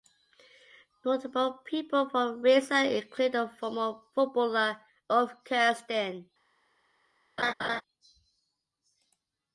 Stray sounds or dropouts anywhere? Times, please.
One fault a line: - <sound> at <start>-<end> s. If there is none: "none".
- laugh at 7.4-7.8 s